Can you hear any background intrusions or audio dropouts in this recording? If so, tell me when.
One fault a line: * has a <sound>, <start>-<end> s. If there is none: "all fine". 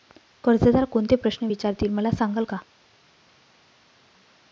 all fine